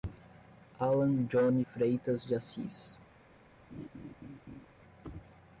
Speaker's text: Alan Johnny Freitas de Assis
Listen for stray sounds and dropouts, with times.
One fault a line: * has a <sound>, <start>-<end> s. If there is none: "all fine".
* has a laugh, 3.7-4.7 s